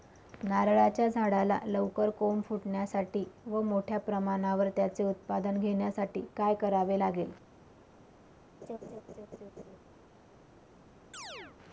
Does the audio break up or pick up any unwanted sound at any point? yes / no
yes